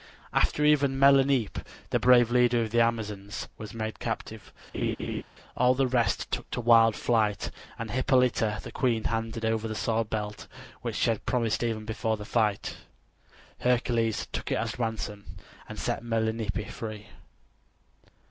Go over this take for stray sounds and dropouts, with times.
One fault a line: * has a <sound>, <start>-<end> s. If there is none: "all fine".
* has a laugh, 4.7-5.2 s